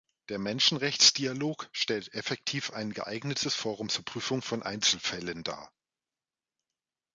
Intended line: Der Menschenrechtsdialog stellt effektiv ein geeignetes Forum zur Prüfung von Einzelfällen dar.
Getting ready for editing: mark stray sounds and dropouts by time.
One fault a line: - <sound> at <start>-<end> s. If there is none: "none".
none